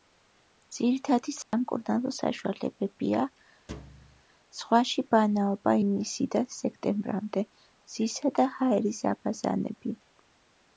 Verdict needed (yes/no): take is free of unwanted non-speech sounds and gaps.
no